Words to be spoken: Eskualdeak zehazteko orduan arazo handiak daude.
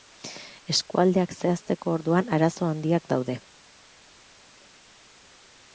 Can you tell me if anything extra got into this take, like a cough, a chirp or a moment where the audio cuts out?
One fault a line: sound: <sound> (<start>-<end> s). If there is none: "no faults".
no faults